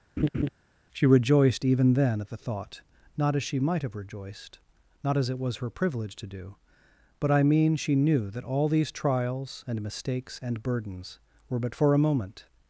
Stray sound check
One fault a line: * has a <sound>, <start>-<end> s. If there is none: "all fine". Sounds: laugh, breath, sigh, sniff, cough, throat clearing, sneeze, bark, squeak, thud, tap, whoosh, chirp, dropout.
* has a laugh, 0.2-0.5 s